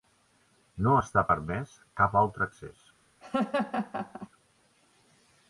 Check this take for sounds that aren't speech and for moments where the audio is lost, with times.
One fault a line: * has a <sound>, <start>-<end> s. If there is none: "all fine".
* has a laugh, 3.2-4.3 s